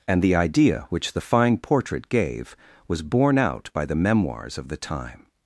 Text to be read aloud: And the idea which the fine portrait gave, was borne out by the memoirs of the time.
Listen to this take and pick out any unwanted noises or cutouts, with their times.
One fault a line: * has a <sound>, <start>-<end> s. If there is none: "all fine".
all fine